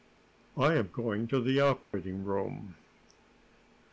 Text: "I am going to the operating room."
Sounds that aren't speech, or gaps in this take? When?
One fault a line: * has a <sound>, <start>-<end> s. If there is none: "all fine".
* has a dropout, 1.8-1.9 s